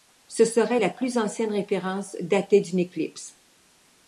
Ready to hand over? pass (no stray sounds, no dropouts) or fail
pass